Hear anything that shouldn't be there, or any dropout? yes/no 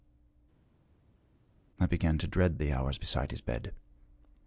no